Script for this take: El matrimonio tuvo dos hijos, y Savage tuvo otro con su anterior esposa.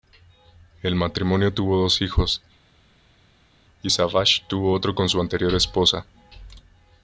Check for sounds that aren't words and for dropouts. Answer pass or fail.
pass